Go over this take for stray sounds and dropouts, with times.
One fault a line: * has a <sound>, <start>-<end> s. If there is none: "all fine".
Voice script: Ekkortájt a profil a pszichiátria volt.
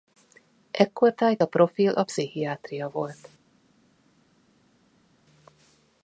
all fine